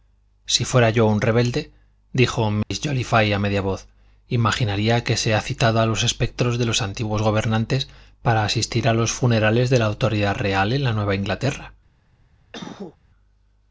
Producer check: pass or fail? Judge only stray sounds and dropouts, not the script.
fail